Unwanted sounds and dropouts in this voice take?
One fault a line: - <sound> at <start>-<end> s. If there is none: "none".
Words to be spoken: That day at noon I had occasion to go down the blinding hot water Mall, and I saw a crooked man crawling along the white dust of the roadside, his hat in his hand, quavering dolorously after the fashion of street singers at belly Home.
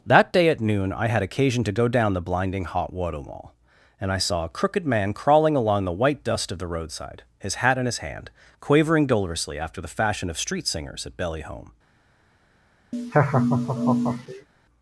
- laugh at 12.9-14.5 s